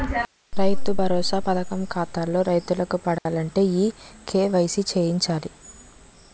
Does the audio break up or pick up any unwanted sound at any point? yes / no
yes